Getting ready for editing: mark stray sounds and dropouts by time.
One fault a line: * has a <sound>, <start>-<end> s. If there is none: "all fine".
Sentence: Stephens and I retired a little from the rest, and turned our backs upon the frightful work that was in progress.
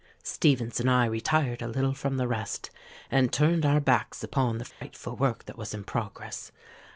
* has a dropout, 4.7-4.8 s